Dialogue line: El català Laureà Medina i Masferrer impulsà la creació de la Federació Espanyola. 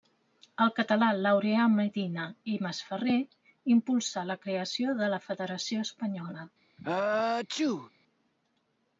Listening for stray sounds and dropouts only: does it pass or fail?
fail